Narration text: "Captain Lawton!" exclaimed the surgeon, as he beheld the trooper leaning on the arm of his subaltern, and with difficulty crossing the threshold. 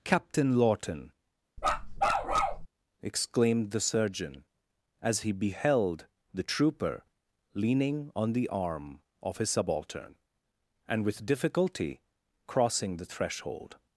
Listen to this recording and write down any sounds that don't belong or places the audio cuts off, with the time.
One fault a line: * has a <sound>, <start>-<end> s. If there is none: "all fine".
* has a bark, 1.6-2.7 s